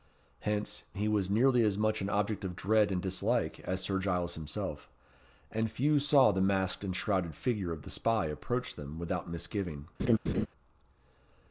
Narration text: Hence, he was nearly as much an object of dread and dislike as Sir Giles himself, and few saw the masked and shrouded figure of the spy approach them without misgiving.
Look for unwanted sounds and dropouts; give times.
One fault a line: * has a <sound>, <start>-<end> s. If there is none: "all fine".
* has a laugh, 10.0-10.5 s